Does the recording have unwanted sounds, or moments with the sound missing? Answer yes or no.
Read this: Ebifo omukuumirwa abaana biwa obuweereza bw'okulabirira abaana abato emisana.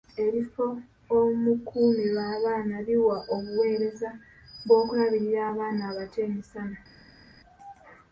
no